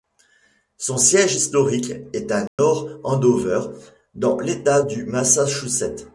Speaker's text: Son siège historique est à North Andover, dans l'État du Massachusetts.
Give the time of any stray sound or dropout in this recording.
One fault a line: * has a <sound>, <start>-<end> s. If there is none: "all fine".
* has a dropout, 2.5-2.6 s